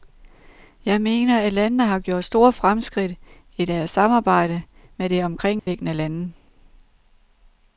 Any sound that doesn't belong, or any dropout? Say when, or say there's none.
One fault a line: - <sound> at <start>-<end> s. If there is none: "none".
- dropout at 5.6-5.7 s